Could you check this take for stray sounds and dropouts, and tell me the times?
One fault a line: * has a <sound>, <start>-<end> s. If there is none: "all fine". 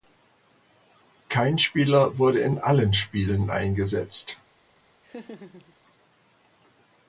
* has a laugh, 5.0-5.8 s